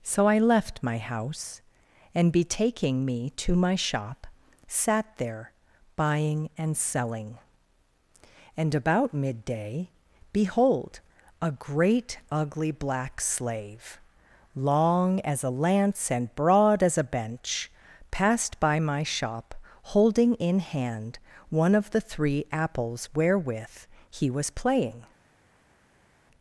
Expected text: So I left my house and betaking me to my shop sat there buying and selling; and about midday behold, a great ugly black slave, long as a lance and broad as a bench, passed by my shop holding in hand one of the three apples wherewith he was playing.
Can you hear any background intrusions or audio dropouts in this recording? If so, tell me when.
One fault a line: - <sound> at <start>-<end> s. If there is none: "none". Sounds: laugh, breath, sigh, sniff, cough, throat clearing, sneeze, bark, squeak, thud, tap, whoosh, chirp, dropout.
none